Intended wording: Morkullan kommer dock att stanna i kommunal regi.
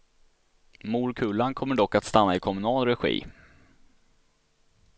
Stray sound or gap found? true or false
false